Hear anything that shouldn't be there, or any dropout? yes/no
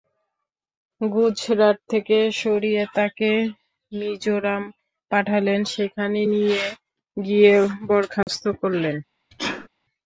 yes